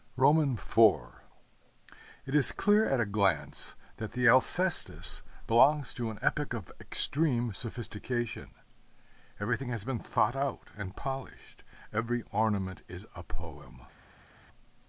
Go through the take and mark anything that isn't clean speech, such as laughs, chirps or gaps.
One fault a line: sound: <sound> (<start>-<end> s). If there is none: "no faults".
no faults